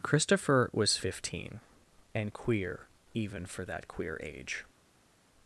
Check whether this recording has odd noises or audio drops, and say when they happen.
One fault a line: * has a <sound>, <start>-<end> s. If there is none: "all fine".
all fine